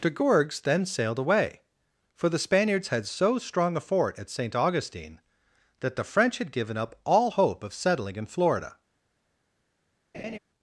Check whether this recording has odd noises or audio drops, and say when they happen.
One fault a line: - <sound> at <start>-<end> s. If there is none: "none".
- laugh at 10.1-10.4 s